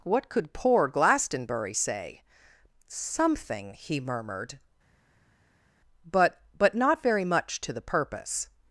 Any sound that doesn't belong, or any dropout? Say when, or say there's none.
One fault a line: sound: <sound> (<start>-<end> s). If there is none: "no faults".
no faults